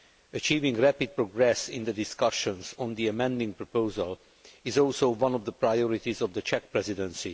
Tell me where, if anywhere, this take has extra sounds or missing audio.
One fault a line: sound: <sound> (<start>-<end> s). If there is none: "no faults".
no faults